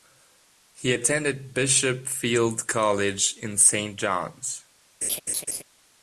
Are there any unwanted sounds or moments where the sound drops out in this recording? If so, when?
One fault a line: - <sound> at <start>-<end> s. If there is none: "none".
- laugh at 5.0-5.6 s